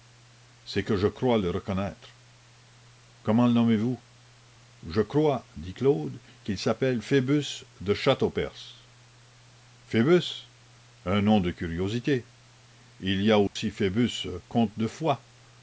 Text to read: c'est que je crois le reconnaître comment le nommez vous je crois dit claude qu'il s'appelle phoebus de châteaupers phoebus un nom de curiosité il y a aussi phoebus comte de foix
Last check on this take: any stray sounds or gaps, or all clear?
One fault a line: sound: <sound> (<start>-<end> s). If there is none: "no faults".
sound: dropout (13.5-13.6 s)